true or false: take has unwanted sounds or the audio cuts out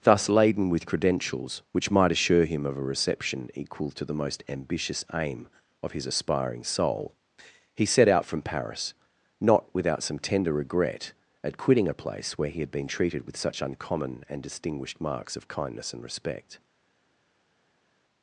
false